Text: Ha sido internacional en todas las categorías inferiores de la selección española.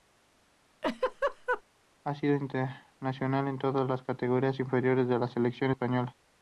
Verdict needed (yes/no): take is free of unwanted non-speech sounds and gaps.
no